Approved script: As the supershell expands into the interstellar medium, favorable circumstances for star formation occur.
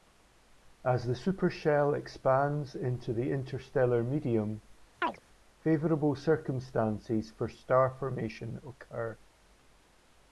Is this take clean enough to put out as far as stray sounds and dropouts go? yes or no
no